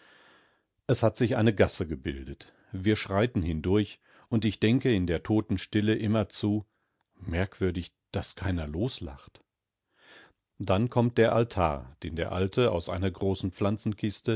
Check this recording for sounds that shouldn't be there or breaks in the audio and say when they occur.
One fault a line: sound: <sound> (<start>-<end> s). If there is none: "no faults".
no faults